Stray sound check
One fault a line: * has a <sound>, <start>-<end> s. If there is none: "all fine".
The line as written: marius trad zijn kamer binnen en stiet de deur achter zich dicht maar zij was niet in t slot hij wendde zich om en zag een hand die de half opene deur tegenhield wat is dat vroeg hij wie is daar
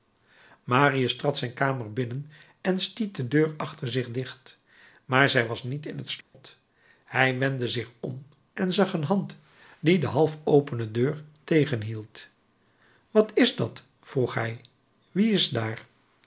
* has a dropout, 6.2-6.3 s